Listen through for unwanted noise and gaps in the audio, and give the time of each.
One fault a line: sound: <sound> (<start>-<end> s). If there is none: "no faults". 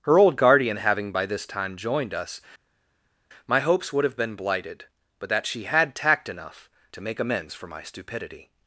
no faults